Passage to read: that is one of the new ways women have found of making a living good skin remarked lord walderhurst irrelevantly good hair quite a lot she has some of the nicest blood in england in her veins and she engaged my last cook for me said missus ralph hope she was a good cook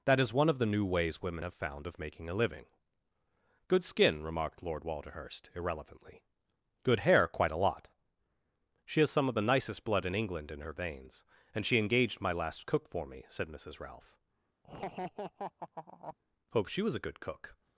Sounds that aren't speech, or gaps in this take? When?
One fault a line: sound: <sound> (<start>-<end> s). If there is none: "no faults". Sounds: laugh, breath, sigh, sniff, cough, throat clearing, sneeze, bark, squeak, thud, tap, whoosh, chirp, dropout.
sound: laugh (14.6-16.2 s)